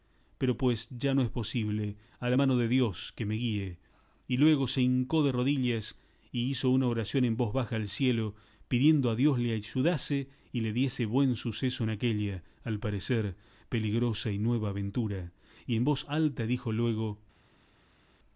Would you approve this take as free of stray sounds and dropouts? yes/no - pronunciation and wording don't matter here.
yes